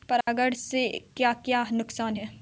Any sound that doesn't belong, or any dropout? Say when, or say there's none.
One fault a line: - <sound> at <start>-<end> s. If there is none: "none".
- dropout at 0.2-0.3 s